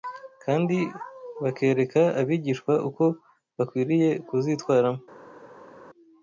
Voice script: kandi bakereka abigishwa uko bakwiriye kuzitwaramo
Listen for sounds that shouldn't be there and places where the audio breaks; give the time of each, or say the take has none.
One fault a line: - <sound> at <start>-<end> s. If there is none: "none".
none